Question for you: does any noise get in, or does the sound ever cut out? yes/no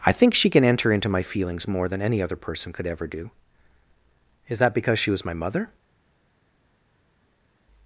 no